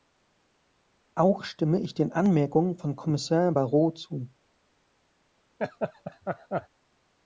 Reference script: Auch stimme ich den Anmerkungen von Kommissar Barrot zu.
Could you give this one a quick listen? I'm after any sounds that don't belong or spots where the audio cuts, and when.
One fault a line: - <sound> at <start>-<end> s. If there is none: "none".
- laugh at 5.6-6.7 s